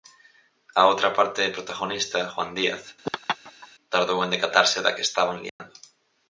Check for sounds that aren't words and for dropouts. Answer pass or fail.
fail